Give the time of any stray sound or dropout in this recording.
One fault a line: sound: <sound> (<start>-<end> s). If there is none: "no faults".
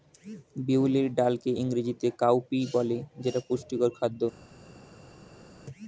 no faults